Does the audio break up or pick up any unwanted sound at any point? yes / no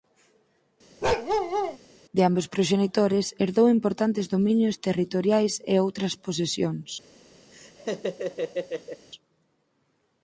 yes